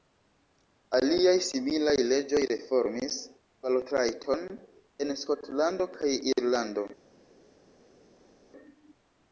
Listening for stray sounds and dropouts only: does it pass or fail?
pass